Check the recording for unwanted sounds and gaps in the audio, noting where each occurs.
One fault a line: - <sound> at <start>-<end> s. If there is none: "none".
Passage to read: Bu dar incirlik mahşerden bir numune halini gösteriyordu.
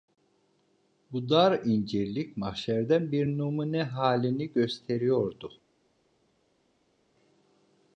none